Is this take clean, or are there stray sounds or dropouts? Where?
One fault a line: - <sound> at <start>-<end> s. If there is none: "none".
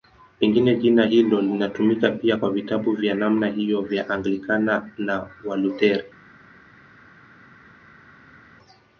none